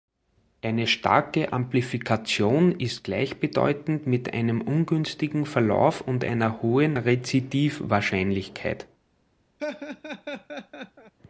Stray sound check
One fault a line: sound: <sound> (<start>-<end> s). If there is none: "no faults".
sound: laugh (9.6-11.1 s)